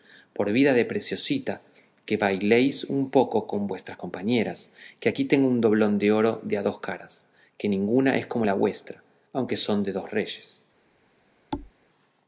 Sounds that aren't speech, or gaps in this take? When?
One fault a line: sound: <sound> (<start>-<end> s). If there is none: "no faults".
sound: thud (11.5-11.7 s)